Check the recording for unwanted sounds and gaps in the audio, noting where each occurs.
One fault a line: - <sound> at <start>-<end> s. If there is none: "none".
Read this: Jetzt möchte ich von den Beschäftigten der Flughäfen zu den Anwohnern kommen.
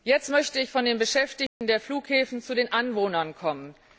- dropout at 1.5-1.6 s